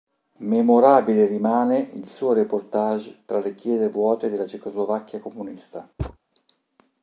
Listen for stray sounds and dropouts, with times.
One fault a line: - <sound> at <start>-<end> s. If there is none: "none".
- thud at 6.0-6.2 s